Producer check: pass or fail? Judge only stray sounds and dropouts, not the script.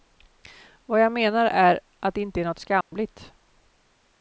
fail